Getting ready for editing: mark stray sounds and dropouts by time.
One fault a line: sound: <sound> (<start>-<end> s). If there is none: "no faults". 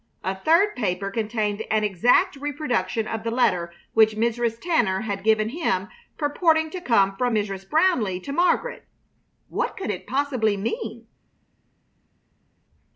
no faults